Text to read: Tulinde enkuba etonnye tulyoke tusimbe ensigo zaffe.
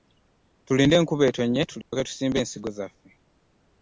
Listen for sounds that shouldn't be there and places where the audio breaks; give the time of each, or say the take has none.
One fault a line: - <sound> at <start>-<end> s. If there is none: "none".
- dropout at 1.8-1.9 s